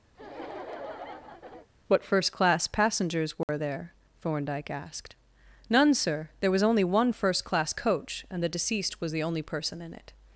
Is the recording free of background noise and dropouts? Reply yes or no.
no